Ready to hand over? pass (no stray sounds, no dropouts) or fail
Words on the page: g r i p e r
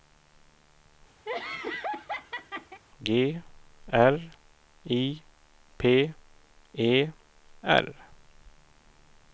fail